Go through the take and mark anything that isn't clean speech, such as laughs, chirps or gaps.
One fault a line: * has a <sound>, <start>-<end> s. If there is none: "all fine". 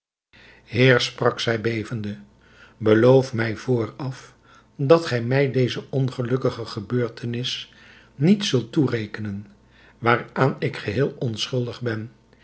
all fine